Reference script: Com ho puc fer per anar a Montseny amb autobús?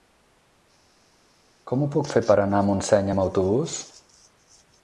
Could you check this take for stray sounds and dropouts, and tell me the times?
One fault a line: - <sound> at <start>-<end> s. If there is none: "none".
none